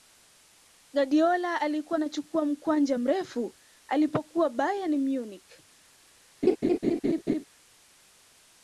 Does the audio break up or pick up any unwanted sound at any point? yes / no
yes